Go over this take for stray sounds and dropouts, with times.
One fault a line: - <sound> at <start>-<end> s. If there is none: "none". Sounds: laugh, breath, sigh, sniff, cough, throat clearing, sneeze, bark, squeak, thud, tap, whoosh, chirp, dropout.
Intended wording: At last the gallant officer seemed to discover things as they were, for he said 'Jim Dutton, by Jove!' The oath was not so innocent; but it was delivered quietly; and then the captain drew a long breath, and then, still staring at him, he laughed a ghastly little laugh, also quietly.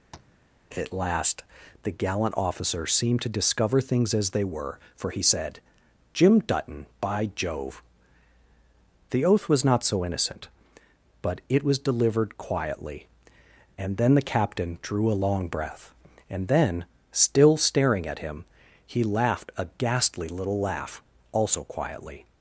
- tap at 0.1-0.4 s